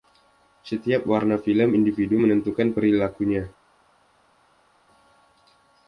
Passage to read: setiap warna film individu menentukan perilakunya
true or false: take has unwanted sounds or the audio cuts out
false